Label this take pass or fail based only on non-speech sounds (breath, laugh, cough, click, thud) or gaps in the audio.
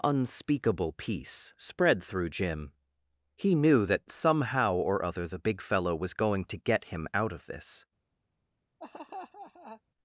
fail